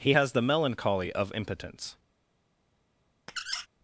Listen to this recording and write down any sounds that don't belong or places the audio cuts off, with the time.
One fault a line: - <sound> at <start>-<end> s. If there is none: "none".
- squeak at 3.3-3.7 s